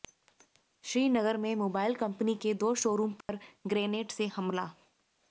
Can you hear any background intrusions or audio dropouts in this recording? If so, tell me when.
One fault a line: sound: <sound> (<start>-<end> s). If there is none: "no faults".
sound: dropout (3.2-3.3 s)